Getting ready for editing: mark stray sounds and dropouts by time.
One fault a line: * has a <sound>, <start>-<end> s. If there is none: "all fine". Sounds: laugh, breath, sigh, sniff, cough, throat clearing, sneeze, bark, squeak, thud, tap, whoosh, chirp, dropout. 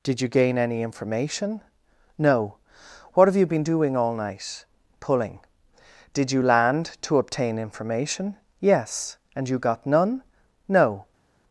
all fine